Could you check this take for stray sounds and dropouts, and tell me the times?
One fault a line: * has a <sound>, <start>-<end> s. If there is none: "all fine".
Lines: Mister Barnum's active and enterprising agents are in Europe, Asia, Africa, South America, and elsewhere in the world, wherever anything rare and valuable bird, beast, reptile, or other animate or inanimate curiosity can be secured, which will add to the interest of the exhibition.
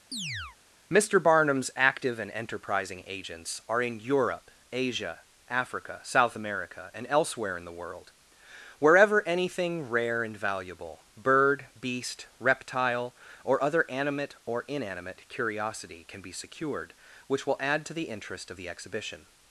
* has a chirp, 0.1-0.6 s